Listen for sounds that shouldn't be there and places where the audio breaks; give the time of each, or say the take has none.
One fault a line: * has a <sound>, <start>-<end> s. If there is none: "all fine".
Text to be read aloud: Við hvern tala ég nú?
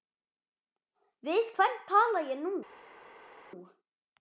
all fine